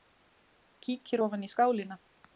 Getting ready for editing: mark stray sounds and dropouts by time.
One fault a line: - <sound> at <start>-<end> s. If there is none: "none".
none